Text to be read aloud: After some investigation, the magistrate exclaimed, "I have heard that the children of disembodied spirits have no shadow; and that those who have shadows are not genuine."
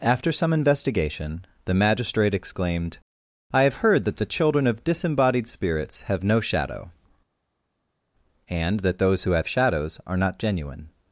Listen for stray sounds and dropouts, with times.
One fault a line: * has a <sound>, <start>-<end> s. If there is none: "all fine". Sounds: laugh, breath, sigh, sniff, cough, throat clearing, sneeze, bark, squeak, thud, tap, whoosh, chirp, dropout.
all fine